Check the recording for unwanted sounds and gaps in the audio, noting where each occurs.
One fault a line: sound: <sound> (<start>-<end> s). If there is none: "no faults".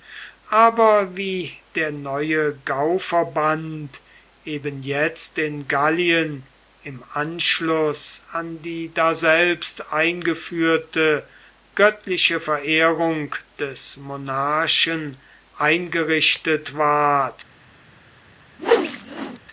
sound: whoosh (18.6-19.4 s)